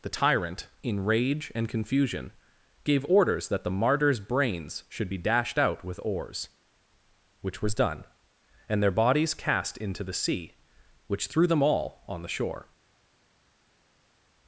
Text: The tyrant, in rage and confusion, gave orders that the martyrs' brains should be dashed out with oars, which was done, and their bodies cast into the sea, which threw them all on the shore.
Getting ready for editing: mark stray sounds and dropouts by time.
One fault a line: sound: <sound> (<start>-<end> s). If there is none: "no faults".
no faults